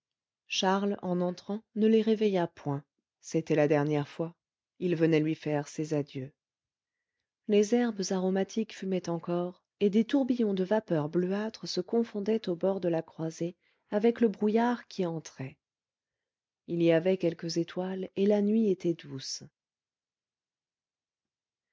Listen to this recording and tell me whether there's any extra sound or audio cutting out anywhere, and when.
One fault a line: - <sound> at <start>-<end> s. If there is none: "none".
none